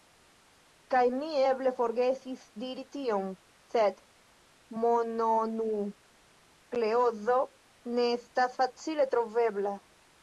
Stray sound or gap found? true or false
false